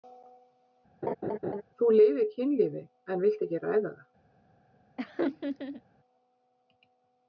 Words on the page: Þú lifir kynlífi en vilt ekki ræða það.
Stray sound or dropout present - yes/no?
yes